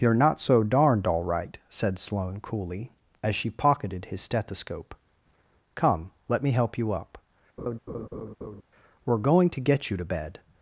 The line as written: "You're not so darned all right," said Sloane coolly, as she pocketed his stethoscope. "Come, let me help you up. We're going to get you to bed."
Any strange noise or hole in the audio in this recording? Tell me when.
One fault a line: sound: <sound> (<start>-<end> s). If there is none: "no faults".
sound: laugh (7.6-8.6 s)